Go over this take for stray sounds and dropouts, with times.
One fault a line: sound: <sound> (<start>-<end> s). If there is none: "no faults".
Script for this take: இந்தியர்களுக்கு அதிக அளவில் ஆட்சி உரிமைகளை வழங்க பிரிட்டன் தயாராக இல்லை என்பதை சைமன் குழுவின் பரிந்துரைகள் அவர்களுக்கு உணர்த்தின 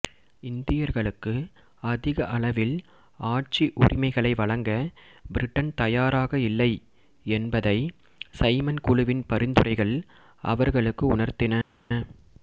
no faults